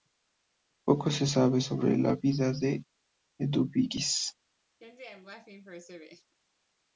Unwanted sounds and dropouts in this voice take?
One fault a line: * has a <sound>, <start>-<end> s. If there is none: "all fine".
* has a laugh, 4.8-6.4 s